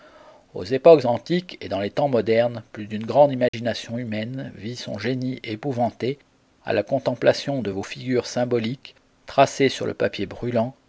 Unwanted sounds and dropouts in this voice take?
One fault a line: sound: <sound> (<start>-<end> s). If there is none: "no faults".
sound: dropout (3.5-3.5 s)